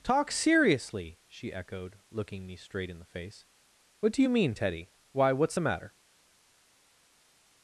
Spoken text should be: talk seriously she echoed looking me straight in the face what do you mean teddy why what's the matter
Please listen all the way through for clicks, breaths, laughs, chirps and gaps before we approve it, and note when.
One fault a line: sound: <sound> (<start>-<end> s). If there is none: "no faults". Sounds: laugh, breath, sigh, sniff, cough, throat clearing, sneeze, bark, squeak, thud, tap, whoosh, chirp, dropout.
no faults